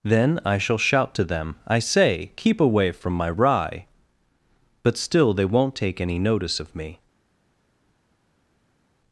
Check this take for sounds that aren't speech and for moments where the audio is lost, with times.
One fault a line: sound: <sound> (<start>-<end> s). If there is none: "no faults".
no faults